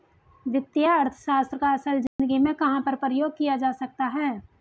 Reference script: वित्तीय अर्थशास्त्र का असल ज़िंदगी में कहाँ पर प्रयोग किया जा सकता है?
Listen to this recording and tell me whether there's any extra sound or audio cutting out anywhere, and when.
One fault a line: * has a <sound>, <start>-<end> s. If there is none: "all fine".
* has a dropout, 2.1-2.2 s